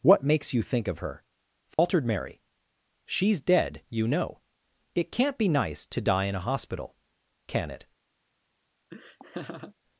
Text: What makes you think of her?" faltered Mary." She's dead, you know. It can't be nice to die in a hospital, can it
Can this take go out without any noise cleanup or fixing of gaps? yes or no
no